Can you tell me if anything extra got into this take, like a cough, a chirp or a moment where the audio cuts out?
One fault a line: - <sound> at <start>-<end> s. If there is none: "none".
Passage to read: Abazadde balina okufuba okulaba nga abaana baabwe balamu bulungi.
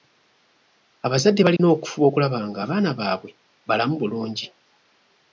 - dropout at 1.6-1.6 s